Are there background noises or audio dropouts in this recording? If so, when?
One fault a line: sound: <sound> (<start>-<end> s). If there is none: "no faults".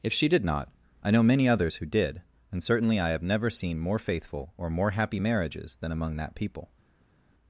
no faults